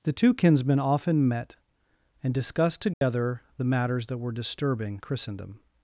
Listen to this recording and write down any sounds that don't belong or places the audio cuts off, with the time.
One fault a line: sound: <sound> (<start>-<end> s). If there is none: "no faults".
sound: dropout (2.9-3.0 s)